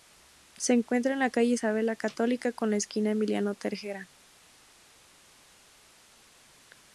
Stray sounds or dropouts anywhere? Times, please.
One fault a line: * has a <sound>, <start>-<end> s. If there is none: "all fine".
all fine